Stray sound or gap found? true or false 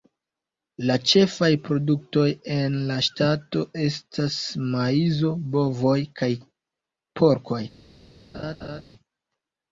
true